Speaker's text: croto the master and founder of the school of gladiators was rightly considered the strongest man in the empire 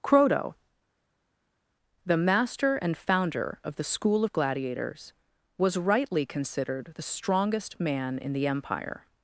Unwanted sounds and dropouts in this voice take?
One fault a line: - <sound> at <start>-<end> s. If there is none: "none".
none